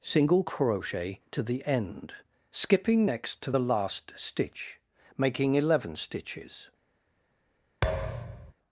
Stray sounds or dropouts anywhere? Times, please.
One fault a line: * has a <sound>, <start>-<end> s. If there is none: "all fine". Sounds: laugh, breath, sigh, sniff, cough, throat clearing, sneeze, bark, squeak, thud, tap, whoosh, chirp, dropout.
* has a thud, 7.8-8.5 s